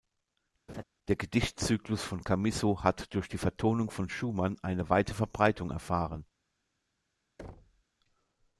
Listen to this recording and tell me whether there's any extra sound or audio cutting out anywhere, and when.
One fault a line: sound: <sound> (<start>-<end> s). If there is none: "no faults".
sound: laugh (0.7-0.8 s)
sound: thud (7.4-7.8 s)